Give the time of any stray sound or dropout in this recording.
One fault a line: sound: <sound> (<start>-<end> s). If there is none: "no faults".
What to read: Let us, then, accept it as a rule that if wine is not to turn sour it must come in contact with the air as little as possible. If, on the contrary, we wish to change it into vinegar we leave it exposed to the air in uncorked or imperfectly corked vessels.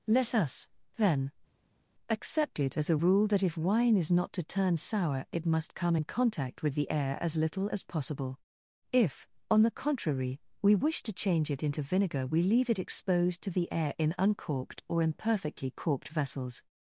no faults